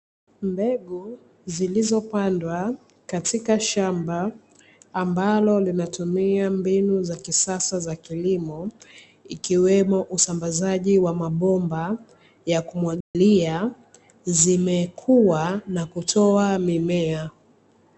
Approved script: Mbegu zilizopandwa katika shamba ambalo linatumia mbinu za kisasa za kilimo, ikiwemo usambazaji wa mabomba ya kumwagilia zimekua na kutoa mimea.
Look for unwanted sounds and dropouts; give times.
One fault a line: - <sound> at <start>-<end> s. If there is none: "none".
- dropout at 13.0-13.2 s